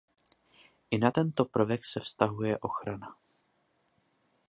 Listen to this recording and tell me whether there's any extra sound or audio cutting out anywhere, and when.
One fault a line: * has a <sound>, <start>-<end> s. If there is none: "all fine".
all fine